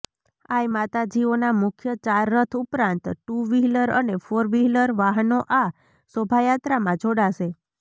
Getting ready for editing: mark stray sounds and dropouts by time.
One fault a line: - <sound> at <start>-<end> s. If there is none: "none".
none